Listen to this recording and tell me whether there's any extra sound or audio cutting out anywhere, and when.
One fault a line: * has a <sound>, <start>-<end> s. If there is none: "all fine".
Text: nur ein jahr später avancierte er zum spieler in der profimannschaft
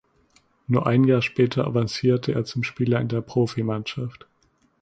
all fine